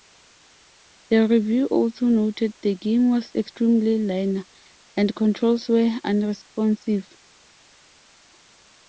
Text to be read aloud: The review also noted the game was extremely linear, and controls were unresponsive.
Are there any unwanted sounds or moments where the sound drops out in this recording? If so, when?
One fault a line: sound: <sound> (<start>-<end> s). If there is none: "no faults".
no faults